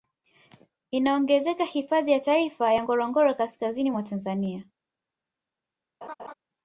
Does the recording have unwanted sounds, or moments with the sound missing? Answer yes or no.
yes